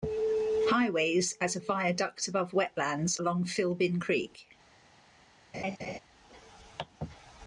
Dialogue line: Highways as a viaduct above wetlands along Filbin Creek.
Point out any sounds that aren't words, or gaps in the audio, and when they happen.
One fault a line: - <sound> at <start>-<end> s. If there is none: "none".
- laugh at 5.5-6.0 s